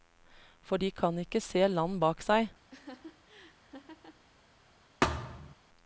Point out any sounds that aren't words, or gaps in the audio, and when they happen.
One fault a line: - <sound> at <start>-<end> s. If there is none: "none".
- laugh at 2.7-4.2 s
- thud at 5.0-5.5 s